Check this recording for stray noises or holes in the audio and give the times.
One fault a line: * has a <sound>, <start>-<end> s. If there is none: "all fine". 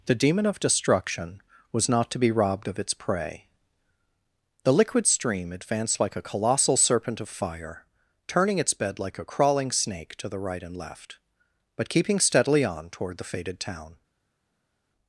all fine